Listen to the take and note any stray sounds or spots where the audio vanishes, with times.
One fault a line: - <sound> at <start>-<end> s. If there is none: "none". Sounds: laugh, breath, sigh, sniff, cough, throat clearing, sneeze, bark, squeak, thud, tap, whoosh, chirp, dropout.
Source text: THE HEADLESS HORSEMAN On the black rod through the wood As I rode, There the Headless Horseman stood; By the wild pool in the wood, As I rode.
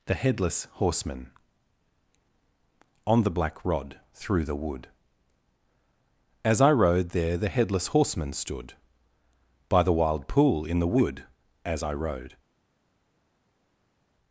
none